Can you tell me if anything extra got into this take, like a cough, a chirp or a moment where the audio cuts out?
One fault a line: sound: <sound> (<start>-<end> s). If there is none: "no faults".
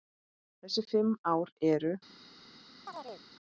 sound: chirp (2.9-3.2 s)